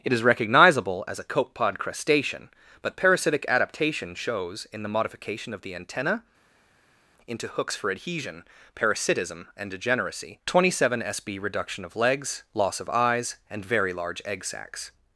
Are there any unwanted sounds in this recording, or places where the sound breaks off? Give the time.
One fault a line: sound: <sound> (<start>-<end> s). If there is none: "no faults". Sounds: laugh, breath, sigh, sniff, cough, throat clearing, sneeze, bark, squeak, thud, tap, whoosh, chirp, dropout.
no faults